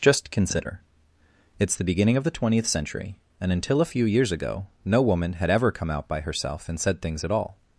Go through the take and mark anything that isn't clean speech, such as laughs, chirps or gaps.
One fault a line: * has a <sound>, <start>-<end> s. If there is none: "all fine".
all fine